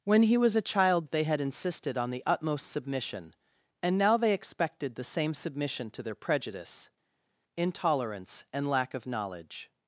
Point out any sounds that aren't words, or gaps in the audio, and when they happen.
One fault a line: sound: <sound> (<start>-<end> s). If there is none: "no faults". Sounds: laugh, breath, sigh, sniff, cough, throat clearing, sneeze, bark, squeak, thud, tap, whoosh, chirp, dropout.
no faults